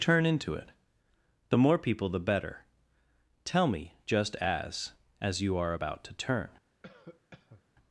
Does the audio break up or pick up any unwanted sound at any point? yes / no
yes